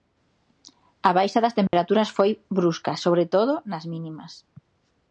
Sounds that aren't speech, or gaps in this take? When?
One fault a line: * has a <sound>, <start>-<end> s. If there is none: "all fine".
* has a dropout, 1.7-1.7 s